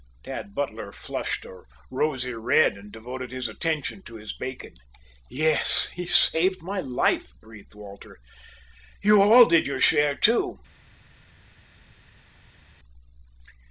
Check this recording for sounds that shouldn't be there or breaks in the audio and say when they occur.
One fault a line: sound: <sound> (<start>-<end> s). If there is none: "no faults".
no faults